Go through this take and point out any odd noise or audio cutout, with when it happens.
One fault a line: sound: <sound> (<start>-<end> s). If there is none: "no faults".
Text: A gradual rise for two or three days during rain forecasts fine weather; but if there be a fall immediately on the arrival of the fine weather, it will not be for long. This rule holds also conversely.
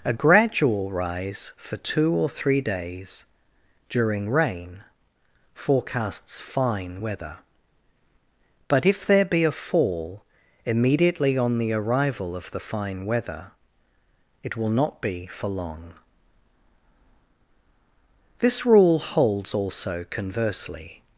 no faults